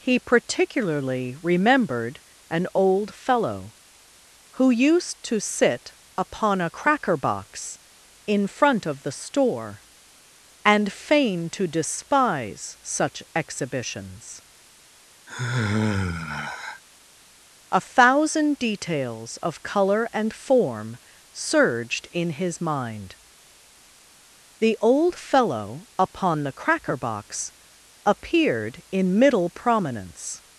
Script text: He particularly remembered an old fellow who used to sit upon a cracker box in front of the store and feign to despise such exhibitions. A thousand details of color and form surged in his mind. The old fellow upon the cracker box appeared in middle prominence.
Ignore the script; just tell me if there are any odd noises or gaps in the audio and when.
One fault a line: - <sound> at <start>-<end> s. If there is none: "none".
- sigh at 15.3-16.8 s